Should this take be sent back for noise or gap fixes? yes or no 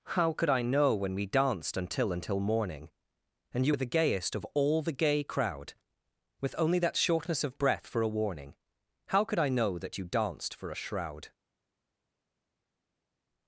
no